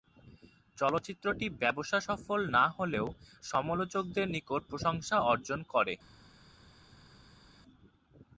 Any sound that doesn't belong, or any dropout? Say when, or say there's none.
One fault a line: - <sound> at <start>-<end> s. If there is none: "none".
none